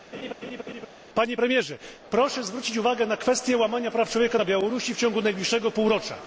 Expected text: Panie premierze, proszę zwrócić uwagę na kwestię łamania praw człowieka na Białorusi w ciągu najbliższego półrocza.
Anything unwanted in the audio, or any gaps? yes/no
yes